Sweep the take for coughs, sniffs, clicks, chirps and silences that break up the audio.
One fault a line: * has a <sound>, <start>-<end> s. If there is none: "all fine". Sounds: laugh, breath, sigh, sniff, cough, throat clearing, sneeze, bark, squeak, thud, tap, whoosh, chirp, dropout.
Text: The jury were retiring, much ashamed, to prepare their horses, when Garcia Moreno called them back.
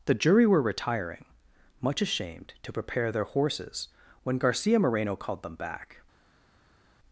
all fine